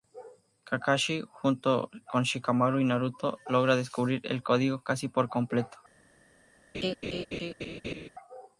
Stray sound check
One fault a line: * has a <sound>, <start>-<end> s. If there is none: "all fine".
* has a laugh, 6.7-8.1 s